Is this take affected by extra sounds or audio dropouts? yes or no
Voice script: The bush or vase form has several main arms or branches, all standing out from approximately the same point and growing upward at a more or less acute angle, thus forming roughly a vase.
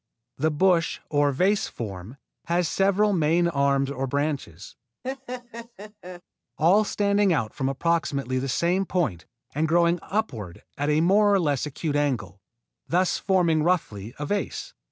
yes